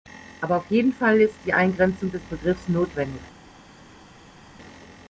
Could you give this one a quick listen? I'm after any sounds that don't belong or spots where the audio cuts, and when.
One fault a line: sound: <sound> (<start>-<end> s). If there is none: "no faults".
no faults